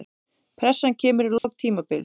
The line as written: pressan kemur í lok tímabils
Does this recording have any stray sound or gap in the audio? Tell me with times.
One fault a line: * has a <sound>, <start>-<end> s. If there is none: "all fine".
* has a dropout, 1.4-1.4 s